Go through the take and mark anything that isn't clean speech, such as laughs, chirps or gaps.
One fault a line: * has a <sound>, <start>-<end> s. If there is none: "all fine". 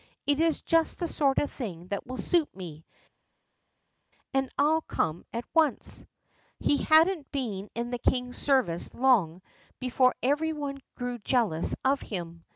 all fine